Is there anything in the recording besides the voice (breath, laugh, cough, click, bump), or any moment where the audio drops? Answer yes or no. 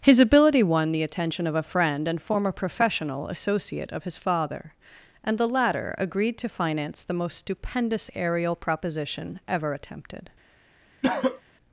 yes